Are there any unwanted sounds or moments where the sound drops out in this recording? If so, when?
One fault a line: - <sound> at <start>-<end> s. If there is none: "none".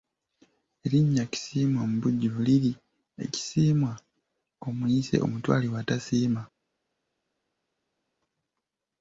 none